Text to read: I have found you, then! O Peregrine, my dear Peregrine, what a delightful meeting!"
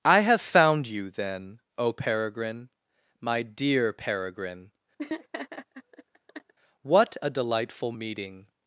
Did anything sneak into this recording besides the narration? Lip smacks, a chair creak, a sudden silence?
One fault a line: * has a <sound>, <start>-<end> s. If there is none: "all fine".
* has a laugh, 5.0-6.5 s